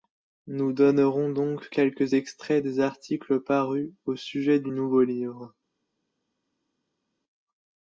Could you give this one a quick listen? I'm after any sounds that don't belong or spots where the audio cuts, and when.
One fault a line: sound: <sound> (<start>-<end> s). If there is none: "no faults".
no faults